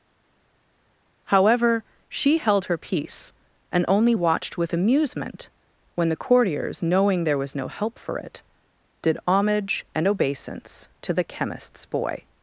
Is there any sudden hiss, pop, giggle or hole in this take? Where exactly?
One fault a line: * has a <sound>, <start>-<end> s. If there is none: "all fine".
all fine